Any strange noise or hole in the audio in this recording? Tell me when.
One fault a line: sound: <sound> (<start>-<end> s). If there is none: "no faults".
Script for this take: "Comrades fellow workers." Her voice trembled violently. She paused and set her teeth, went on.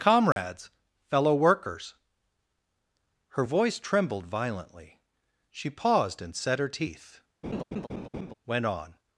sound: dropout (0.3-0.4 s)
sound: laugh (7.4-8.3 s)